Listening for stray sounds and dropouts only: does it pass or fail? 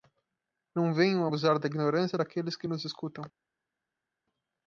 pass